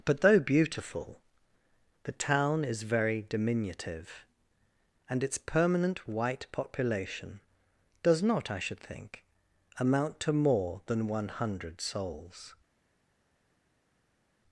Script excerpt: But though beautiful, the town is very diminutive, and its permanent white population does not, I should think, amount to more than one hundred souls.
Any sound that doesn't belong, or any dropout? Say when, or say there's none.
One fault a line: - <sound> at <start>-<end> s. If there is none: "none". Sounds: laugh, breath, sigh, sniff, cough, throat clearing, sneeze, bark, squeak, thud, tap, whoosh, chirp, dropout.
none